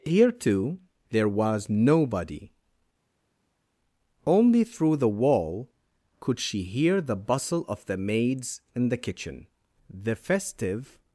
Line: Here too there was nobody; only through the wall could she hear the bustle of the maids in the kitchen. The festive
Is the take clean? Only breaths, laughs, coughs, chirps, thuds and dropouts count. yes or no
yes